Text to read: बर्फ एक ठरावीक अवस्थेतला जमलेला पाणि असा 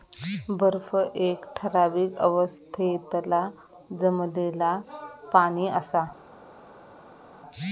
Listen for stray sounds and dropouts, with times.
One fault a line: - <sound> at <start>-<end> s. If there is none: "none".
none